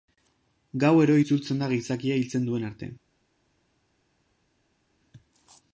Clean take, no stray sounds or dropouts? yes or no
yes